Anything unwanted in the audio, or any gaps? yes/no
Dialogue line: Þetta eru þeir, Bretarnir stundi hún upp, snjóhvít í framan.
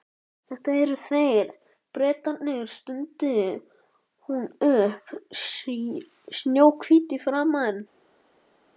no